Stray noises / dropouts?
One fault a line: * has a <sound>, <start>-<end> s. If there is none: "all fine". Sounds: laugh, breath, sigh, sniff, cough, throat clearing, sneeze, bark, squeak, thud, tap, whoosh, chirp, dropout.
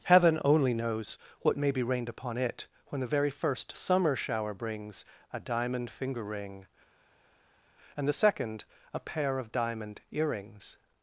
all fine